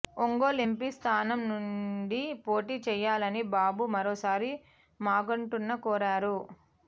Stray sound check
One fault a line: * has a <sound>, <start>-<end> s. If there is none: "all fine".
all fine